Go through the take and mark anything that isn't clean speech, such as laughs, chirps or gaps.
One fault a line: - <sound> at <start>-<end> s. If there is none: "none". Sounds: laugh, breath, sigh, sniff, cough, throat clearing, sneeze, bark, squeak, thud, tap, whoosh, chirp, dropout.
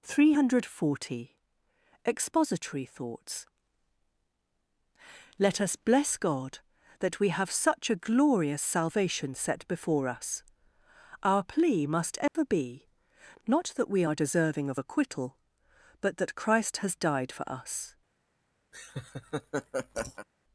- dropout at 12.3-12.4 s
- laugh at 18.7-20.3 s